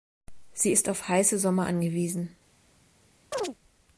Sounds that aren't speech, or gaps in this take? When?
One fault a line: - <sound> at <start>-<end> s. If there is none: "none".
- chirp at 3.3-3.6 s